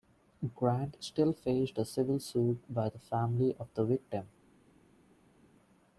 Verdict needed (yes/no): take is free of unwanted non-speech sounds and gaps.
yes